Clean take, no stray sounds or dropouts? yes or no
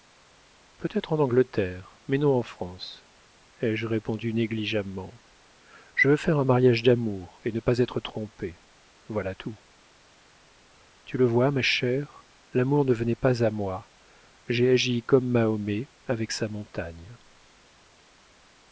yes